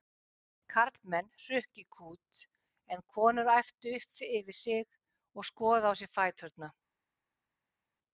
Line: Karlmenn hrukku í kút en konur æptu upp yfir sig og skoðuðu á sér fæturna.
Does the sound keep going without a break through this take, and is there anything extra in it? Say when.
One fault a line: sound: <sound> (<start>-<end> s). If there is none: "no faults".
no faults